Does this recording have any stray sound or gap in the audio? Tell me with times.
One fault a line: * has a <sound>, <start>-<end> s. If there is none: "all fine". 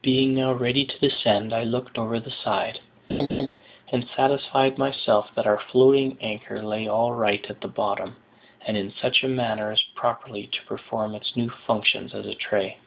* has a laugh, 3.1-3.5 s